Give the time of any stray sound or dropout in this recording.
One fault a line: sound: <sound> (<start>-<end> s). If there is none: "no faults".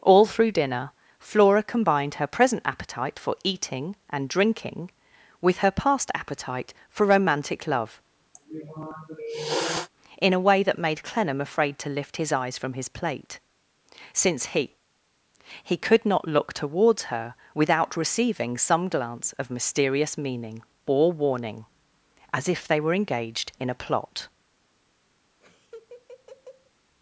sound: sniff (8.3-9.9 s)
sound: laugh (25.4-26.7 s)